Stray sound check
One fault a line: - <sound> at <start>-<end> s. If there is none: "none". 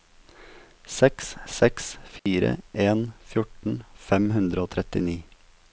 - dropout at 2.2-2.3 s